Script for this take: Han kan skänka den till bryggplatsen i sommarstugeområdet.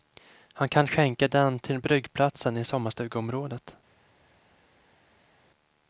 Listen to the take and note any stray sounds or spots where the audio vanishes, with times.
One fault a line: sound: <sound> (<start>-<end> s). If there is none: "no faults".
no faults